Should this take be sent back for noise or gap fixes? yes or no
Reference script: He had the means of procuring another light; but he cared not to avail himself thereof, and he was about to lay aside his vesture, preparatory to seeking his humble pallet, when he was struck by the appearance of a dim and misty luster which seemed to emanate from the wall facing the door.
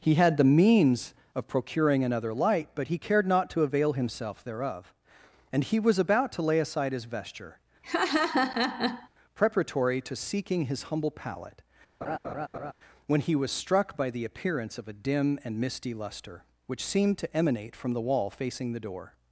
yes